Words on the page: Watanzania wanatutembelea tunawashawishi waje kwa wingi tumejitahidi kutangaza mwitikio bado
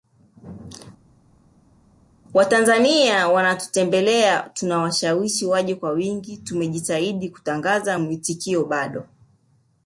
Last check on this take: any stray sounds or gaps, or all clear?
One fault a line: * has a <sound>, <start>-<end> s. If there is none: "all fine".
all fine